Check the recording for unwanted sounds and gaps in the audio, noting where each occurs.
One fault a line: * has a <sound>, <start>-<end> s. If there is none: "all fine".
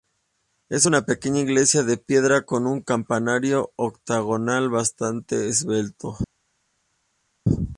all fine